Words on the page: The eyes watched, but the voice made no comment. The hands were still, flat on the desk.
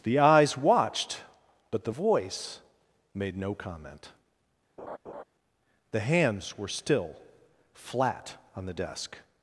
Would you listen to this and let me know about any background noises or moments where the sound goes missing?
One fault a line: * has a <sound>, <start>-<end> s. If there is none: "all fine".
* has a laugh, 4.8-5.2 s